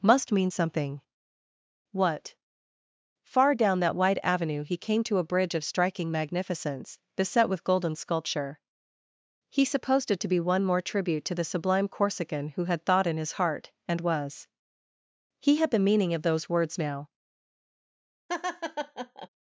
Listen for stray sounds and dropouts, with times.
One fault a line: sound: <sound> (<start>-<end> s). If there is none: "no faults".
sound: laugh (18.3-19.3 s)